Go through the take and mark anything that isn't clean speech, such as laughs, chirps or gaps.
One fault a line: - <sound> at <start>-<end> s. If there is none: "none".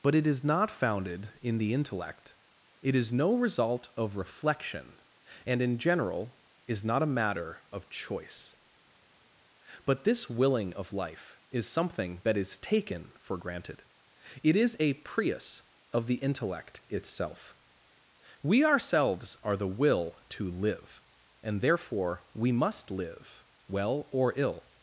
none